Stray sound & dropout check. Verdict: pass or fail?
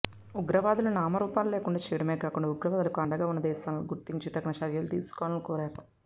pass